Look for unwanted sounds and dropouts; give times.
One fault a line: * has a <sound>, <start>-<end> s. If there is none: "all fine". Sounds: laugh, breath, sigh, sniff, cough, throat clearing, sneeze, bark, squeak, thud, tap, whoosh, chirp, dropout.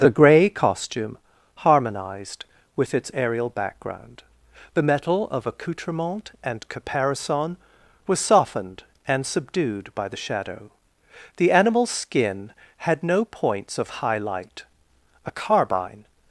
all fine